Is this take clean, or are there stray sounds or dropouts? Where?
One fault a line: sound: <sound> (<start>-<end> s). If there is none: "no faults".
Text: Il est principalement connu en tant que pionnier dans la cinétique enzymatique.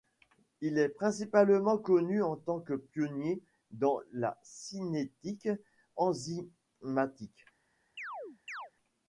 sound: chirp (8.0-8.7 s)